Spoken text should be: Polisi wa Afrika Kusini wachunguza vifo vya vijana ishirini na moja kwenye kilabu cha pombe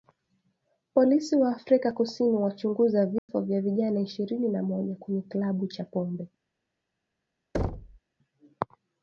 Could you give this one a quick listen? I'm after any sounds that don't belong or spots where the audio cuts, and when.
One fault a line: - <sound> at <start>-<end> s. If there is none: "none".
- dropout at 3.2-3.3 s
- thud at 7.5-8.0 s